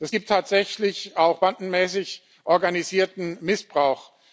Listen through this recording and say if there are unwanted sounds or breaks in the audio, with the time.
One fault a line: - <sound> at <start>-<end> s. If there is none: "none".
none